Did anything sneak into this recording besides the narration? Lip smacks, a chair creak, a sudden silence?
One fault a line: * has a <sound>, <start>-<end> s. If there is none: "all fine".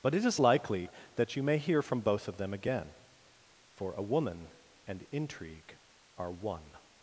all fine